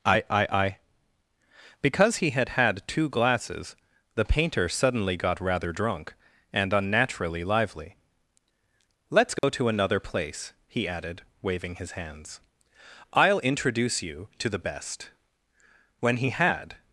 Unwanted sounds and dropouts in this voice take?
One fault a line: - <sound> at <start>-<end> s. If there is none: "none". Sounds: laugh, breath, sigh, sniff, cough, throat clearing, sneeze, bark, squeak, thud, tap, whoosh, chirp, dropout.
- dropout at 9.4-9.4 s